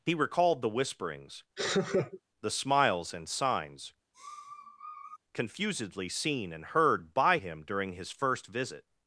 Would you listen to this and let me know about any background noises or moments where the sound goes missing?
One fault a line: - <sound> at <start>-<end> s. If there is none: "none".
- laugh at 1.6-2.2 s
- sniff at 4.1-5.2 s